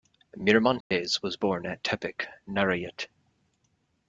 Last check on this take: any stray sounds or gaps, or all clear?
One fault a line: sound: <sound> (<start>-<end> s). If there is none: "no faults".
sound: dropout (0.8-0.9 s)